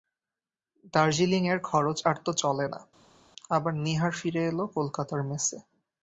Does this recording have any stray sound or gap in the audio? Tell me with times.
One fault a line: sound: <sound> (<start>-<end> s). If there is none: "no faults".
no faults